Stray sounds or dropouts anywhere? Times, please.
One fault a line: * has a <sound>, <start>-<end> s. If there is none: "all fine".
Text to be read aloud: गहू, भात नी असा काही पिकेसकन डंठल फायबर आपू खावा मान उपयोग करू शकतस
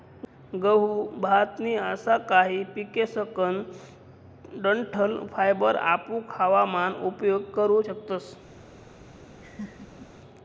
* has a laugh, 9.4-10.1 s